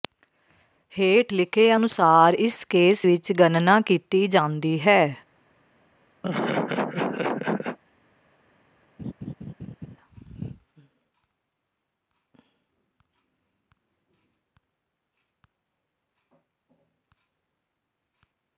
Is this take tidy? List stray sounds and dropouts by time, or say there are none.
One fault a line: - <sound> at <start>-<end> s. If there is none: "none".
- laugh at 6.2-7.8 s
- laugh at 9.0-10.0 s